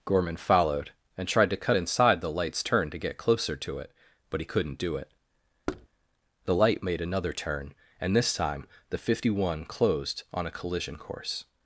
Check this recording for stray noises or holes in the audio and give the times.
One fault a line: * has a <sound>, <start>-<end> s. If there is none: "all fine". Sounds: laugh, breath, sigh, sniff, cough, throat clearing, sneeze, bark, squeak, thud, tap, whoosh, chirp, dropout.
* has a thud, 5.7-5.9 s